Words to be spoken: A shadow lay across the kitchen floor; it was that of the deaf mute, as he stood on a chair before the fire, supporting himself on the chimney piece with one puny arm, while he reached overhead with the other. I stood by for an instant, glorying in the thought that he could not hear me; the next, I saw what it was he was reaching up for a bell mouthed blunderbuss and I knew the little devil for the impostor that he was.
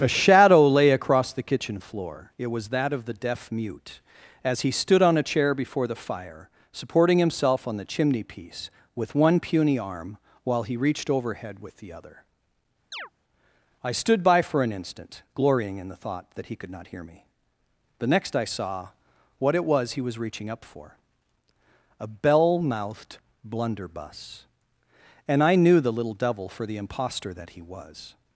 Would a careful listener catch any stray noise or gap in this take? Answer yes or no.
yes